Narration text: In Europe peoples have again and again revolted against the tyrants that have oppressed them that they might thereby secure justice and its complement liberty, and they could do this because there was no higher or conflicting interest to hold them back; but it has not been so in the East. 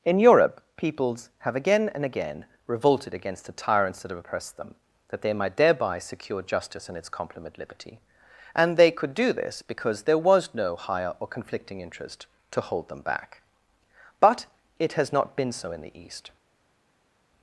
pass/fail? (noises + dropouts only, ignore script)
pass